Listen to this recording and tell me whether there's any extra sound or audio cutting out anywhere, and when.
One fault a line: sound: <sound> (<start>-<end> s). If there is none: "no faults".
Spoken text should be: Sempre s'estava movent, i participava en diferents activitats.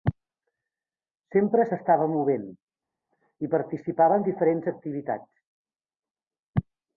no faults